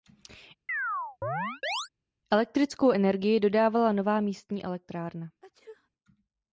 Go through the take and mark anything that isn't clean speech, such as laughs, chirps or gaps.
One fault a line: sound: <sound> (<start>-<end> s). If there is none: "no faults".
sound: chirp (0.7-1.9 s)
sound: sneeze (5.4-5.9 s)